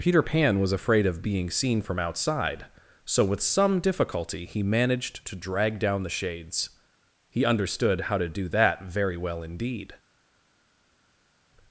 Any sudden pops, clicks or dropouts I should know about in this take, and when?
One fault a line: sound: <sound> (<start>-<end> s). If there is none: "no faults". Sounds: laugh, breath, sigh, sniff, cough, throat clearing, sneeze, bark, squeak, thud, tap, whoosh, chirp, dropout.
no faults